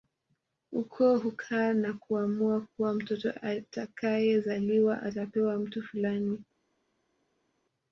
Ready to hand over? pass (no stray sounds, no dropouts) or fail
pass